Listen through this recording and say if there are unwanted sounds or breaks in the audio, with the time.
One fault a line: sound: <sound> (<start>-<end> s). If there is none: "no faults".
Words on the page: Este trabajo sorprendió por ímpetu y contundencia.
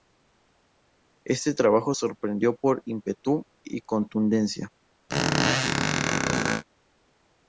sound: squeak (5.1-6.6 s)